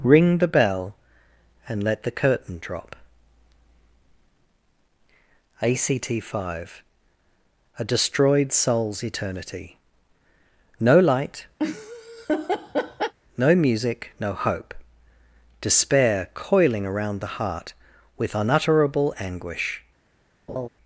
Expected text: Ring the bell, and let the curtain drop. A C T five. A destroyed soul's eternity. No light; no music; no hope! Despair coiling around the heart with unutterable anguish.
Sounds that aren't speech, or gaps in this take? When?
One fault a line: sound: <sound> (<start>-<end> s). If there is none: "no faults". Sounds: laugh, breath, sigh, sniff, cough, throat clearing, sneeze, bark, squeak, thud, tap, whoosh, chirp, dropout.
sound: laugh (11.6-13.1 s)
sound: laugh (20.5-20.7 s)